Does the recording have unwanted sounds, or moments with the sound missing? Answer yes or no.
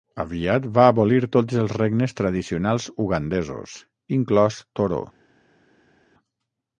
no